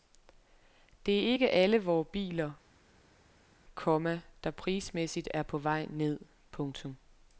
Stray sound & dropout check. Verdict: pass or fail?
pass